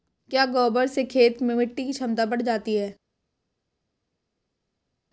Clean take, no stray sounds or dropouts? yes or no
yes